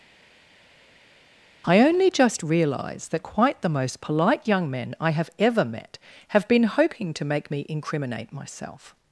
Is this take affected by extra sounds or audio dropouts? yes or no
no